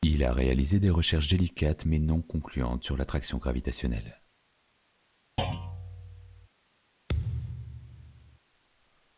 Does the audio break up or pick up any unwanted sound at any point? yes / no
yes